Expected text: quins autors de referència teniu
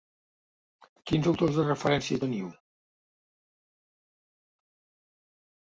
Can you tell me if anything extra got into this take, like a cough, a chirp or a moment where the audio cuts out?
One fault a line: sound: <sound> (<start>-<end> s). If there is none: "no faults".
no faults